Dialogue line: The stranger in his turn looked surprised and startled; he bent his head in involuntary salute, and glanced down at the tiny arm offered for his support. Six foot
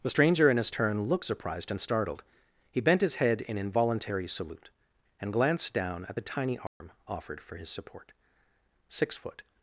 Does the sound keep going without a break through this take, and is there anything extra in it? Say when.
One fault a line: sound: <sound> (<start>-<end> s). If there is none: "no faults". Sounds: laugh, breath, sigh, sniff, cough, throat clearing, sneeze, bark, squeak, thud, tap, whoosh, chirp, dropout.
sound: dropout (6.7-6.8 s)